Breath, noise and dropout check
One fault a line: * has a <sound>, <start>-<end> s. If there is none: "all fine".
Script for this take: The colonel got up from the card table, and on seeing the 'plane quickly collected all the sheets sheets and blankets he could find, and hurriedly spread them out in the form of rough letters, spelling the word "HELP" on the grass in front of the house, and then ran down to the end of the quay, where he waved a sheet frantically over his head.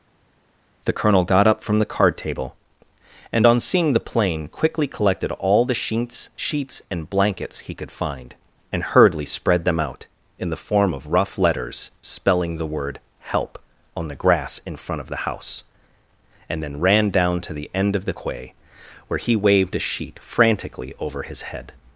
all fine